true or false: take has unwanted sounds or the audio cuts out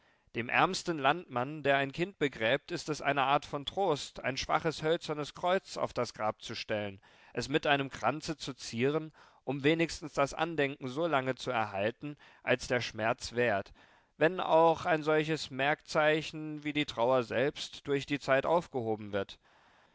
false